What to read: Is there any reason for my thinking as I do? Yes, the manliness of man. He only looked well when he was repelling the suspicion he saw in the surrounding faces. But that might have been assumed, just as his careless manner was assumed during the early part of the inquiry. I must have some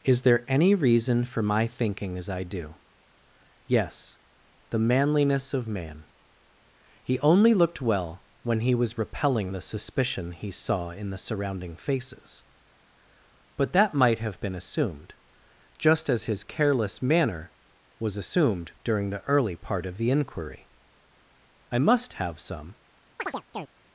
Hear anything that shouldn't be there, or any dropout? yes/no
yes